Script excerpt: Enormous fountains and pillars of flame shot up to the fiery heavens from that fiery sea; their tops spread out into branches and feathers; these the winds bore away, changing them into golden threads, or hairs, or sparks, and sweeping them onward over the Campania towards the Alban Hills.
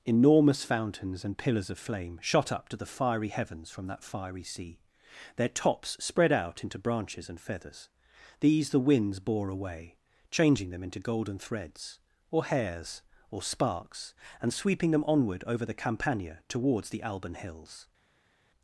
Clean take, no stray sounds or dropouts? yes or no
yes